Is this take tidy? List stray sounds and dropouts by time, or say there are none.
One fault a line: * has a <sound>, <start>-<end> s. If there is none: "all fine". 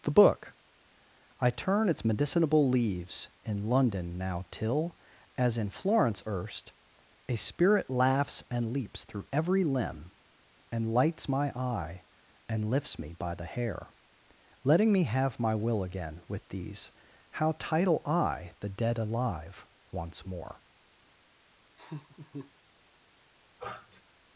* has a laugh, 21.8-22.5 s
* has a sniff, 23.6-24.0 s